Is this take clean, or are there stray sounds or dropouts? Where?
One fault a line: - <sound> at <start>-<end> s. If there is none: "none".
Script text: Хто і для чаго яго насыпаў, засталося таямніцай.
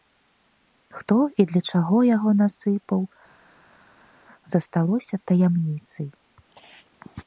none